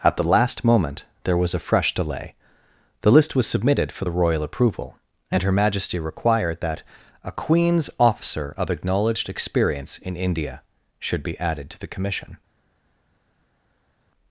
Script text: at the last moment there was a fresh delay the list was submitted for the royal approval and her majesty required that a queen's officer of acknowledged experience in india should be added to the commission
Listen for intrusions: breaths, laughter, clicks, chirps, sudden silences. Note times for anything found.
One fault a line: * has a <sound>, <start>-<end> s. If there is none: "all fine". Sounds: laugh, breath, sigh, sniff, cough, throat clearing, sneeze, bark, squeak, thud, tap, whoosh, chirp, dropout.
all fine